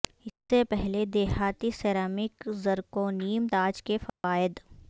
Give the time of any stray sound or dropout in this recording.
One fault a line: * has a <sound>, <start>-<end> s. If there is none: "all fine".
* has a dropout, 4.1-4.2 s